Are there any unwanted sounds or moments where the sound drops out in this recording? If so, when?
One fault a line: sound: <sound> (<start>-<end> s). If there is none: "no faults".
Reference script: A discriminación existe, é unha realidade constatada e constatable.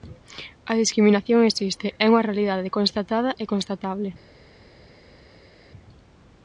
no faults